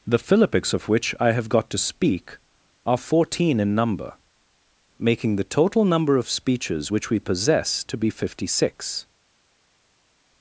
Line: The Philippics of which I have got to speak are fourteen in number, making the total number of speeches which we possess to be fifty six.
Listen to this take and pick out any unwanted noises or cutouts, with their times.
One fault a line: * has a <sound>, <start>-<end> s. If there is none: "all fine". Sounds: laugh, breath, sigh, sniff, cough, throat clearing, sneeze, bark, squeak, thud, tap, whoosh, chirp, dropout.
all fine